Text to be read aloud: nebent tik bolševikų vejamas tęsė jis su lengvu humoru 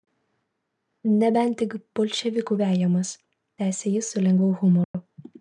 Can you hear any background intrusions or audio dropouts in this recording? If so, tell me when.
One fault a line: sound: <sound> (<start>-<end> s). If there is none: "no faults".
sound: dropout (4.8-4.9 s)